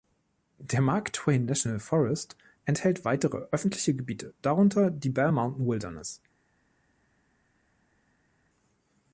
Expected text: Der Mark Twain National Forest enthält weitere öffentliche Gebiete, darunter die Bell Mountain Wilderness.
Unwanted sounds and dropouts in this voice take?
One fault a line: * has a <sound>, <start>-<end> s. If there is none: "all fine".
all fine